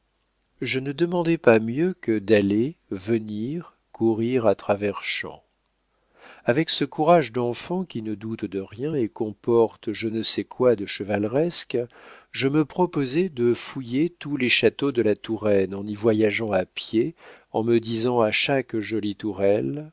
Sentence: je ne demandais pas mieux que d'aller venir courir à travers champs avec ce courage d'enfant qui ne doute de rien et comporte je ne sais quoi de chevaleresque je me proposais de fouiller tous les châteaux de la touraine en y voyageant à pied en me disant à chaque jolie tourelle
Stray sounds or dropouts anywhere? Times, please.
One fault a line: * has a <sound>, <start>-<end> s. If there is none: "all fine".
all fine